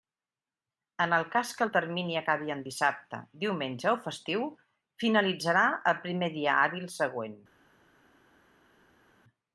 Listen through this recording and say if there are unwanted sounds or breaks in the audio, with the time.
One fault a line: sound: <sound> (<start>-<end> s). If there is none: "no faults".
no faults